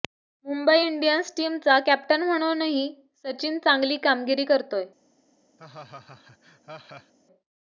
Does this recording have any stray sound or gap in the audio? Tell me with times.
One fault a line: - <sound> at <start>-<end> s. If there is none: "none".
- laugh at 5.6-7.1 s